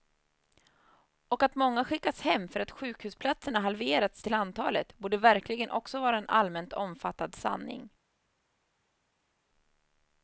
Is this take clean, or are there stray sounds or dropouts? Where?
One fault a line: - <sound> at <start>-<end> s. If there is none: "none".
none